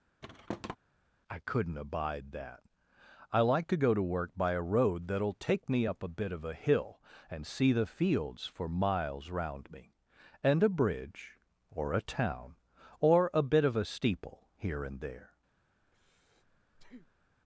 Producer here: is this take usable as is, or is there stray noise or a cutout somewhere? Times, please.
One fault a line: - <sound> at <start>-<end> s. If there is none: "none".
- thud at 0.2-0.8 s
- breath at 15.8-17.4 s